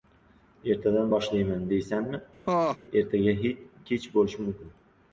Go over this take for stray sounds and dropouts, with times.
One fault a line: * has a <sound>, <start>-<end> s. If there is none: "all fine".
* has a laugh, 2.5-2.8 s